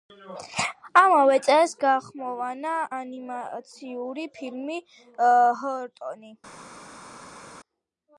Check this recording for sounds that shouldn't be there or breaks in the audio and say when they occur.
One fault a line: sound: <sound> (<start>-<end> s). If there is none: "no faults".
no faults